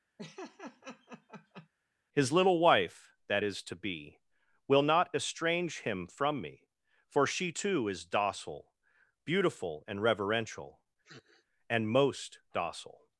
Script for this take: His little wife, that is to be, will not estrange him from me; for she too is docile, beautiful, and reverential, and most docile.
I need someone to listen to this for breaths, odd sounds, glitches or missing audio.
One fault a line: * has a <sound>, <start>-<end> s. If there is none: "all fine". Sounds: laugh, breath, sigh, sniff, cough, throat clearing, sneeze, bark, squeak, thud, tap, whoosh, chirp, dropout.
* has a laugh, 0.2-1.7 s
* has a sniff, 11.0-11.5 s